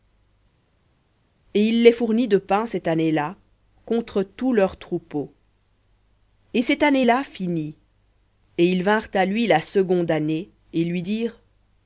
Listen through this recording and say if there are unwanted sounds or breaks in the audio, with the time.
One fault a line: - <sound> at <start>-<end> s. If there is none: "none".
none